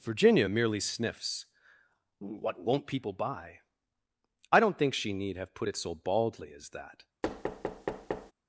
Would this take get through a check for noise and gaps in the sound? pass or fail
fail